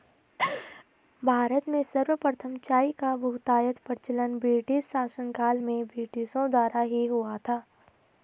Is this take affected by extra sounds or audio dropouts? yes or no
yes